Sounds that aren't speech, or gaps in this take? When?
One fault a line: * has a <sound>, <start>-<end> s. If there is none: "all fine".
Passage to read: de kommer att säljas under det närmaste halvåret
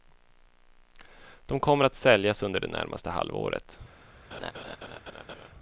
* has a laugh, 4.3-5.5 s